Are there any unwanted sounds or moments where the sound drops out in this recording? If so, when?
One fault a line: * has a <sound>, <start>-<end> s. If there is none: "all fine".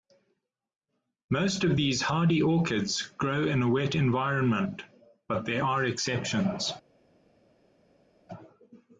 all fine